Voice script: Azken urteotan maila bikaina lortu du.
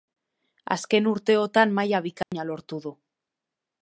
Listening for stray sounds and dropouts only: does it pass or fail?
fail